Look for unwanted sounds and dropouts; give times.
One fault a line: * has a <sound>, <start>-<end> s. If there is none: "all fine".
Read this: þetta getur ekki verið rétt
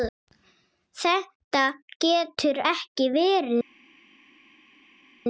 all fine